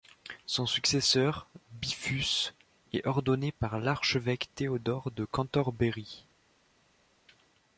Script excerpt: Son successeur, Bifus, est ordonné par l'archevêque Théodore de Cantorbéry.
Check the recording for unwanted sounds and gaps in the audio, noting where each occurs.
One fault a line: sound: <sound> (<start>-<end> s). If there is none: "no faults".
no faults